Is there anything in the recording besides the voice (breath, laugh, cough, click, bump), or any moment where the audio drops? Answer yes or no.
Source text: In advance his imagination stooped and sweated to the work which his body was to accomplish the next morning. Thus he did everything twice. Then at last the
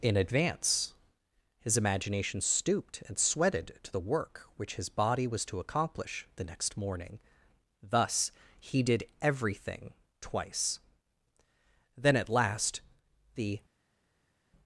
no